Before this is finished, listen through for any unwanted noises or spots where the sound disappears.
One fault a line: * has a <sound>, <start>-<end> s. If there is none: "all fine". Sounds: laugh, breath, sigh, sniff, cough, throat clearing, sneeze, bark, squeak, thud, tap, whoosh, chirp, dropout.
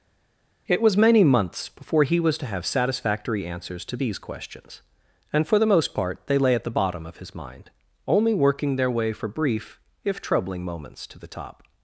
all fine